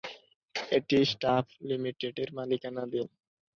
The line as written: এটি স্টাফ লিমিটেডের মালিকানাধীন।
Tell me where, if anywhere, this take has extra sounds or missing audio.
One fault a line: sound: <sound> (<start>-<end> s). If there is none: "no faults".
no faults